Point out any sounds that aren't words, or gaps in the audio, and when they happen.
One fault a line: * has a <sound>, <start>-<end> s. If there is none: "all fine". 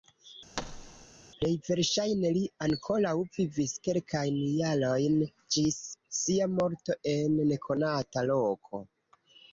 * has a thud, 0.6-1.1 s